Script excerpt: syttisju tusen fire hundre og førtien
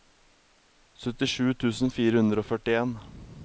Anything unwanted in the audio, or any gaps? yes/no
no